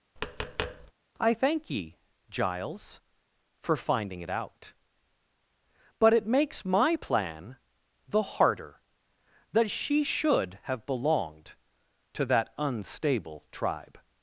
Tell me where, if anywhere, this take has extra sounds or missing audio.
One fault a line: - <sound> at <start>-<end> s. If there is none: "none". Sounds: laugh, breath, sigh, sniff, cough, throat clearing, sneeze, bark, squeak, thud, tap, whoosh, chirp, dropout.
- tap at 0.2-0.9 s